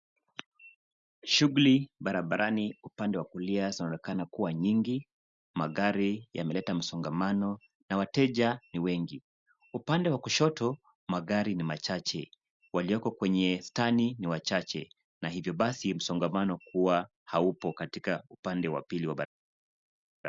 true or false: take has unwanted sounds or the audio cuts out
false